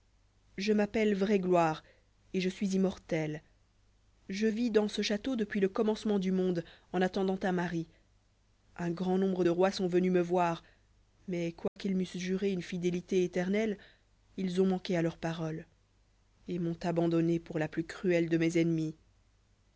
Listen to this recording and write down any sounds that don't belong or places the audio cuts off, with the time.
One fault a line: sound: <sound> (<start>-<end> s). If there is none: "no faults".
sound: dropout (11.7-11.8 s)